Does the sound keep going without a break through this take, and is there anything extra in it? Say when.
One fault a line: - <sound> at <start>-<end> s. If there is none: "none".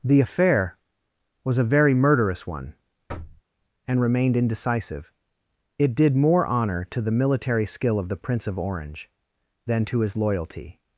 - thud at 3.1-3.4 s